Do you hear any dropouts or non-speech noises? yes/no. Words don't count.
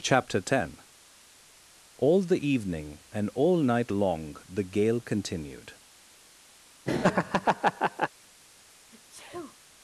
yes